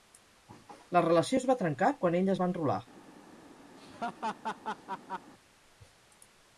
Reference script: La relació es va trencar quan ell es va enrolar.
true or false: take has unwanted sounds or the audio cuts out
true